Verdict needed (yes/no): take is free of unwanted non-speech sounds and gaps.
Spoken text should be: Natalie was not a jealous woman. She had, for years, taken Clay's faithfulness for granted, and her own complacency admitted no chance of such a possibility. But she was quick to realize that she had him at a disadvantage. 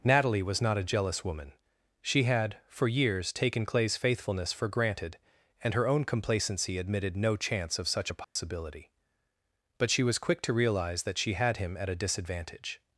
no